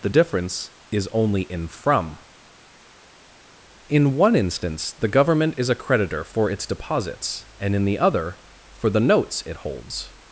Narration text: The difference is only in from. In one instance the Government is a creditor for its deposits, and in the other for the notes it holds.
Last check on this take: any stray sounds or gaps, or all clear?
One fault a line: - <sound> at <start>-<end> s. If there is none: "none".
none